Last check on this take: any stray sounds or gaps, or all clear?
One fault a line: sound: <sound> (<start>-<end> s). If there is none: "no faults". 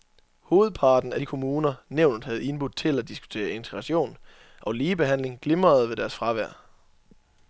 no faults